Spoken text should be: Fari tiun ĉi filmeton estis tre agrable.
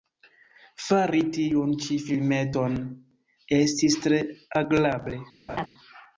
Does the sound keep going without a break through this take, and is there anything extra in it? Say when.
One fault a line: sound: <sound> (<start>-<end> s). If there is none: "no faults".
sound: laugh (5.5-5.7 s)